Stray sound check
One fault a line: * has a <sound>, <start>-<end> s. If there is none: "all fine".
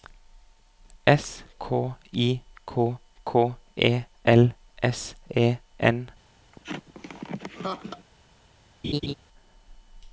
* has a laugh, 6.5-8.1 s
* has a laugh, 8.8-9.1 s